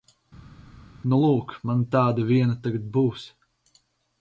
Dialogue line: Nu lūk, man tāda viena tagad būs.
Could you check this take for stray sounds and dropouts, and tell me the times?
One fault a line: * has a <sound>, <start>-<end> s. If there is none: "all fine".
all fine